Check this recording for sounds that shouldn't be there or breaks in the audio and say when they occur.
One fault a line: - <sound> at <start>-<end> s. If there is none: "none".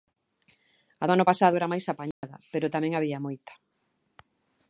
- dropout at 2.1-2.2 s